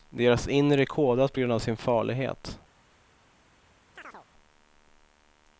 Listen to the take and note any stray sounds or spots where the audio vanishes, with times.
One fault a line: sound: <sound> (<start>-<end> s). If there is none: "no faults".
sound: chirp (4.0-4.3 s)